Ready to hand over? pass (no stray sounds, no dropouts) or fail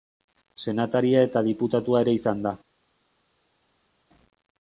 pass